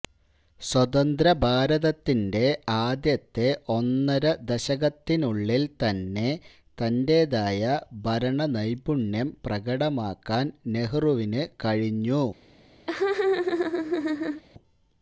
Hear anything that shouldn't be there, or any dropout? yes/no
yes